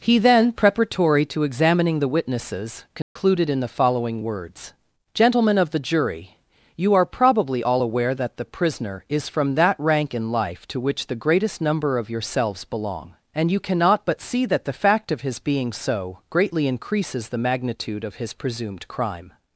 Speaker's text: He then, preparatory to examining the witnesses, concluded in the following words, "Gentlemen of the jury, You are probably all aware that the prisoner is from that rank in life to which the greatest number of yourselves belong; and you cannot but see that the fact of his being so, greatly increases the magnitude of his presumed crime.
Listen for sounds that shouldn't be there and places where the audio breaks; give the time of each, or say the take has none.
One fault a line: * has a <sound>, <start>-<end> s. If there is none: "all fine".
* has a dropout, 3.0-3.2 s